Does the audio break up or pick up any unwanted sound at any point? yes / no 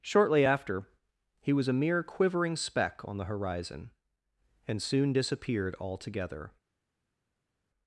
no